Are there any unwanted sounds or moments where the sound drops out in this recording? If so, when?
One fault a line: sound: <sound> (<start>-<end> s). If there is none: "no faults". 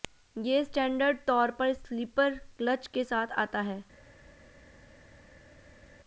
no faults